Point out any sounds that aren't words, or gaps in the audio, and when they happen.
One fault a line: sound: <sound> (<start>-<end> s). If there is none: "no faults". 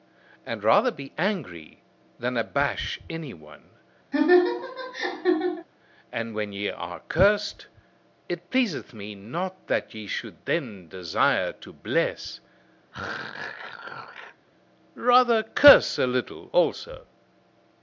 sound: laugh (4.1-5.7 s)
sound: throat clearing (12.9-14.5 s)